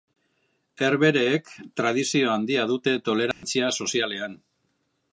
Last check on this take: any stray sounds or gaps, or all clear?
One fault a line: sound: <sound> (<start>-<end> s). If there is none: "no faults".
sound: dropout (3.3-3.4 s)